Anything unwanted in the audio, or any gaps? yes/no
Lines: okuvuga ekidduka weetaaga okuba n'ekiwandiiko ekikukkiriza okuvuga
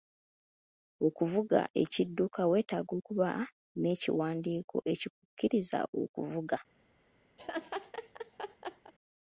yes